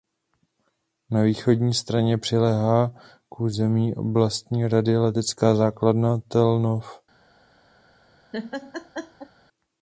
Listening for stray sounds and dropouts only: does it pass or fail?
fail